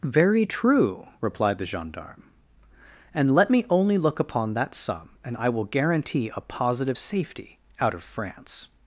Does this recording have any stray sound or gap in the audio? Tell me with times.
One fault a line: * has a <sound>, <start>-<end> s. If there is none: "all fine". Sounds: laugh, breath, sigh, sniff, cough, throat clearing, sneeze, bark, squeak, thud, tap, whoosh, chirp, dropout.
all fine